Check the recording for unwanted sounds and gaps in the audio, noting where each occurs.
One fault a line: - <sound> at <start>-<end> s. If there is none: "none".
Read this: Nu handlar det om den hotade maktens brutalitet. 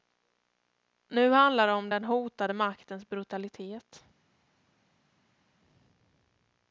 none